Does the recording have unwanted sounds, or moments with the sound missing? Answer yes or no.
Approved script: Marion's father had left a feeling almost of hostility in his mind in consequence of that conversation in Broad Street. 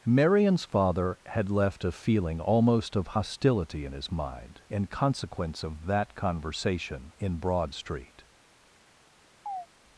yes